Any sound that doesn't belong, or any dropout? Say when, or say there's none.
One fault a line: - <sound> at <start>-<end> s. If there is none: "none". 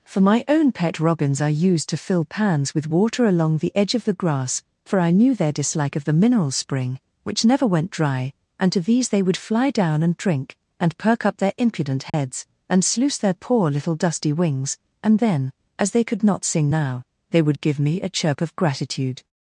- dropout at 12.1-12.1 s